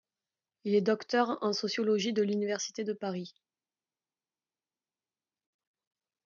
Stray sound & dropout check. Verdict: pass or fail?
pass